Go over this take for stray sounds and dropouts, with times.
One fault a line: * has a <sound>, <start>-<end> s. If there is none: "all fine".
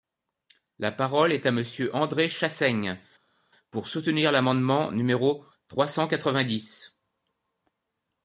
all fine